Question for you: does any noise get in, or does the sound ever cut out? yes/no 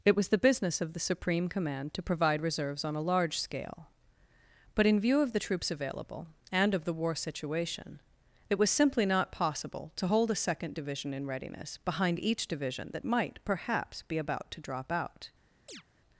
yes